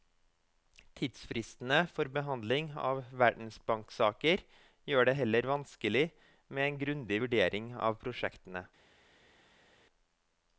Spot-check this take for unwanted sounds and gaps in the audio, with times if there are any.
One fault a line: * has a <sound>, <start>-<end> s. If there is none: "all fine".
all fine